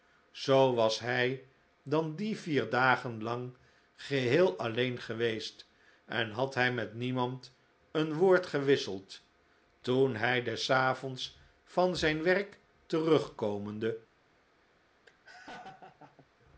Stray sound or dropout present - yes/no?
yes